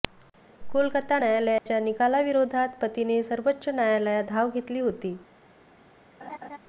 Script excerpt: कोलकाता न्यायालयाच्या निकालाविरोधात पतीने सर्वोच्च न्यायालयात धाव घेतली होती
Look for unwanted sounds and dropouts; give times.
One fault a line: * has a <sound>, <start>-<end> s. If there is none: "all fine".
* has a dropout, 1.6-1.7 s
* has a laugh, 6.2-6.6 s